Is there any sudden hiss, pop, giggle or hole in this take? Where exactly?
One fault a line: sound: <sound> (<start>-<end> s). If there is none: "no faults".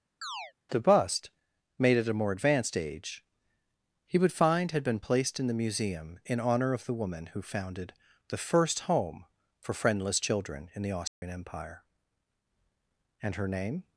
sound: chirp (0.2-0.5 s)
sound: dropout (11.1-11.2 s)